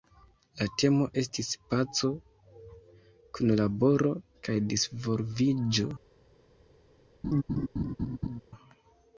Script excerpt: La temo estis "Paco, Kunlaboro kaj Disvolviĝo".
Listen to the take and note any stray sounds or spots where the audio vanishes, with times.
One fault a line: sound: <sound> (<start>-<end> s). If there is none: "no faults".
sound: laugh (7.2-8.4 s)